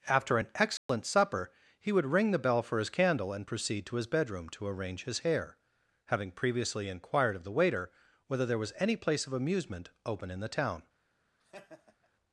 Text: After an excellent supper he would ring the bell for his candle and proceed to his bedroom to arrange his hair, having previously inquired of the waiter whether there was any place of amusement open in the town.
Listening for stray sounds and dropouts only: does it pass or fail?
fail